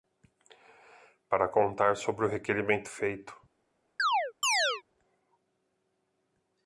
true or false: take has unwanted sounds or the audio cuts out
true